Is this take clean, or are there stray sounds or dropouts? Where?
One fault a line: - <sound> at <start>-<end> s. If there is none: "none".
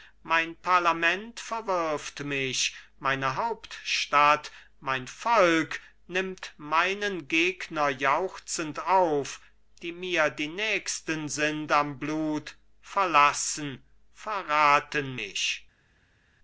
none